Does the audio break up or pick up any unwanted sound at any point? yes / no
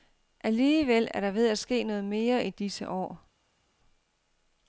no